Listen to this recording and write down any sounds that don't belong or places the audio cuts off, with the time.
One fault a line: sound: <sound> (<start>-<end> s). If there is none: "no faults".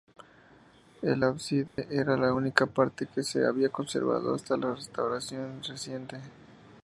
sound: dropout (1.7-1.8 s)